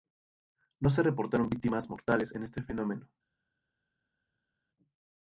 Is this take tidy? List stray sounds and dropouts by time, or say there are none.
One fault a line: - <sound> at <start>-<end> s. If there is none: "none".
none